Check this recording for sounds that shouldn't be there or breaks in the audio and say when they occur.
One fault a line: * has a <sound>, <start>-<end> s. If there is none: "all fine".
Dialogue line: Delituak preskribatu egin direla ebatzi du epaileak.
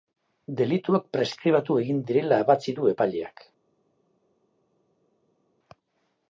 all fine